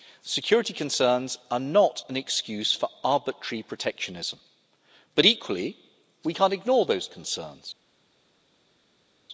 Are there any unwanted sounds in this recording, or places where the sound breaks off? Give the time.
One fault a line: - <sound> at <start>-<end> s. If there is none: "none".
none